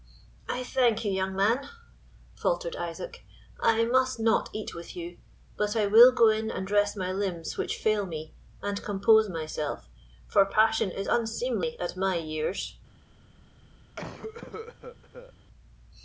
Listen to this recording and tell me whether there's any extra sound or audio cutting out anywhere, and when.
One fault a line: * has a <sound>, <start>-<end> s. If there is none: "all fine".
* has a cough, 14.0-15.3 s